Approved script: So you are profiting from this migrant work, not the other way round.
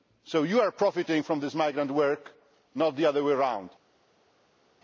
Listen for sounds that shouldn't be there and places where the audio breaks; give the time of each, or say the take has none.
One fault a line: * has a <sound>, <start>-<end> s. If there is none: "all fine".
all fine